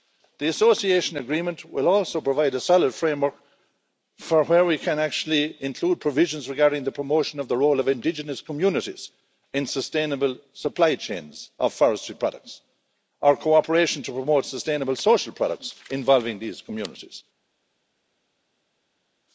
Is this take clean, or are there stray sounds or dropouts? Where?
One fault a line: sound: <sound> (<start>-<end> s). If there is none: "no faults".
no faults